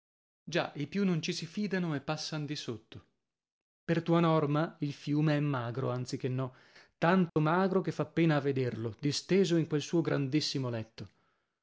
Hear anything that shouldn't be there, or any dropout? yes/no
yes